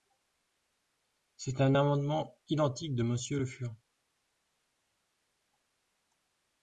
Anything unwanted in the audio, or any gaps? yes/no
no